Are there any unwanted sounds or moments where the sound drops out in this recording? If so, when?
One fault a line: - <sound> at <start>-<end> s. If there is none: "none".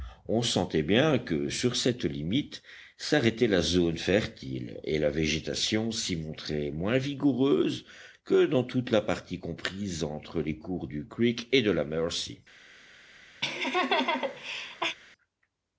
- laugh at 13.4-15.0 s